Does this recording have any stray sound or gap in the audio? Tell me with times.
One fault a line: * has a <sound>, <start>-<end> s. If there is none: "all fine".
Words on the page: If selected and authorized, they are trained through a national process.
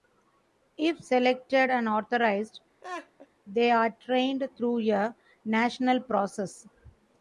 * has a laugh, 2.8-3.3 s